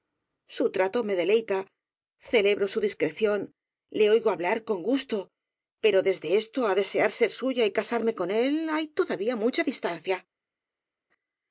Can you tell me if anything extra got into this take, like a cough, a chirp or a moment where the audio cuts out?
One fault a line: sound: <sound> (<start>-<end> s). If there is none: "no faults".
no faults